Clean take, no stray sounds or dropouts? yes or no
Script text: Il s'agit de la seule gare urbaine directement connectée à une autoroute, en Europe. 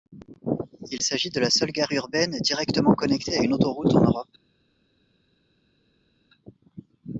yes